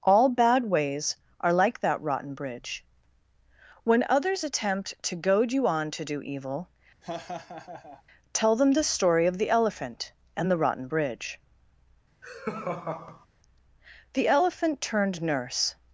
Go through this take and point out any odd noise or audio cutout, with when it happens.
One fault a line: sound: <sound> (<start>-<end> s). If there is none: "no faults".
sound: laugh (7.0-8.0 s)
sound: laugh (12.2-13.3 s)